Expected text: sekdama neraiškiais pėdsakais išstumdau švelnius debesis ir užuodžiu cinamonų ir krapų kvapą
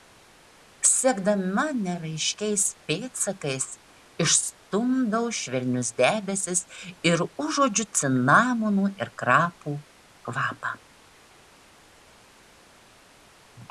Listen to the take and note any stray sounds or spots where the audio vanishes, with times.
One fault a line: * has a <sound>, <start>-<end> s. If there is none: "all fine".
all fine